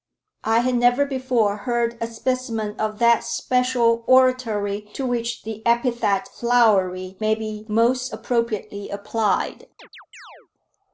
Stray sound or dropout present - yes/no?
yes